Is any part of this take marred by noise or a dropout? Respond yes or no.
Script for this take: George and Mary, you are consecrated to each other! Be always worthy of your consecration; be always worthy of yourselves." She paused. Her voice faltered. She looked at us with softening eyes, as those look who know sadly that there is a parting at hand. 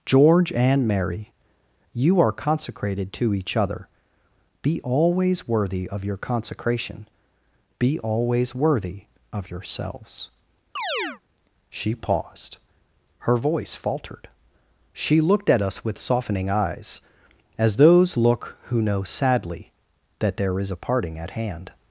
yes